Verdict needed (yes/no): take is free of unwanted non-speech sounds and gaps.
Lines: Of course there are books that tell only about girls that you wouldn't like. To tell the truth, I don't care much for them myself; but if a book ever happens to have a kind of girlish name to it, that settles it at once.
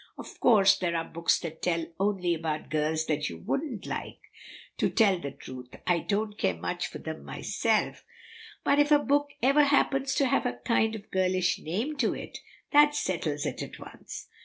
yes